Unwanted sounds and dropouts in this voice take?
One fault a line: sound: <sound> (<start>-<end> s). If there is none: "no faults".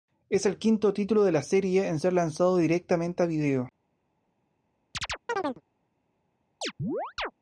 sound: chirp (4.9-5.6 s)
sound: chirp (6.6-7.3 s)